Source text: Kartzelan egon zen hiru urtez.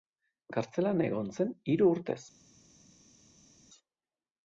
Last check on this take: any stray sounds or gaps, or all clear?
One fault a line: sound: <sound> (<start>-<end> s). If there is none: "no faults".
no faults